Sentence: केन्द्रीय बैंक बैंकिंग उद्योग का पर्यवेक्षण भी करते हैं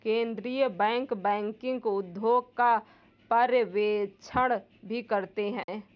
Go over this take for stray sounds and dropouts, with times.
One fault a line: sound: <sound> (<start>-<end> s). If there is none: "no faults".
sound: dropout (5.6-5.7 s)